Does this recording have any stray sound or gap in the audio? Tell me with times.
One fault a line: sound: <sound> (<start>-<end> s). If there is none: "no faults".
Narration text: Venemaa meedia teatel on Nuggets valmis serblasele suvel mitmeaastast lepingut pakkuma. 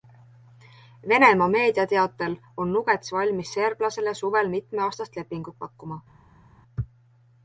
no faults